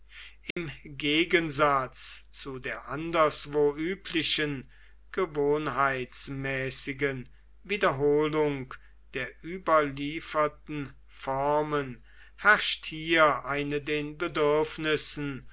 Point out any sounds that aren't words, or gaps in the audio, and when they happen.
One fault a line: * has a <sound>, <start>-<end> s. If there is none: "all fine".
* has a dropout, 0.5-0.6 s